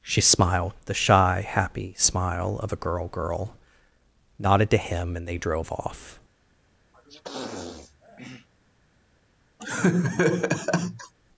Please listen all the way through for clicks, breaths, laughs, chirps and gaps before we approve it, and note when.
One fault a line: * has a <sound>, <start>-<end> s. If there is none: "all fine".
* has a sniff, 6.9-8.5 s
* has a laugh, 9.6-11.1 s